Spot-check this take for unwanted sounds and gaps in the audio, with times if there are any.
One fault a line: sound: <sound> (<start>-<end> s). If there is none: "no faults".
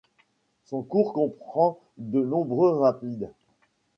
no faults